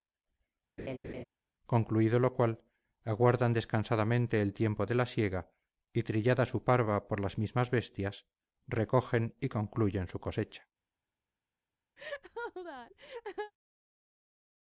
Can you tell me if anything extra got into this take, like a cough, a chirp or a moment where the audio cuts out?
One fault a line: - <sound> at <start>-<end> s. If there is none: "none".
- laugh at 0.8-1.2 s
- laugh at 12.0-13.5 s